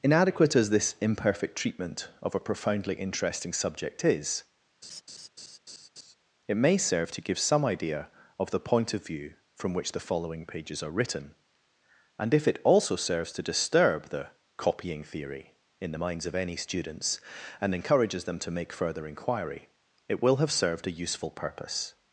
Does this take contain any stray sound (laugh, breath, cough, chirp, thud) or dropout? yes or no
yes